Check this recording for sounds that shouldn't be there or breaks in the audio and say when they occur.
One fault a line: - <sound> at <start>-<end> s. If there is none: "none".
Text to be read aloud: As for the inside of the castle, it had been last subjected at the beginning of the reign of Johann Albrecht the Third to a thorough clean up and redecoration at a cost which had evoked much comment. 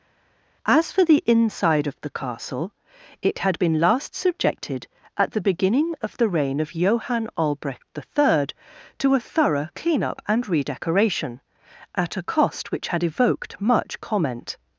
none